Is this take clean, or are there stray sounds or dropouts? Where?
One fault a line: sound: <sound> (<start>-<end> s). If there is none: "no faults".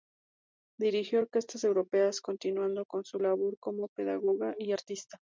no faults